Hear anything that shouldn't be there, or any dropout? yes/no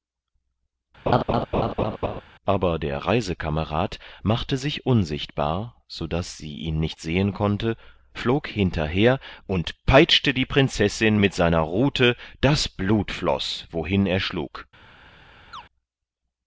yes